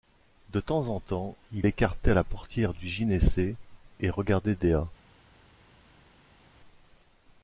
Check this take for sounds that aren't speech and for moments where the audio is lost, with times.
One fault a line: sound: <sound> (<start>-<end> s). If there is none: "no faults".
no faults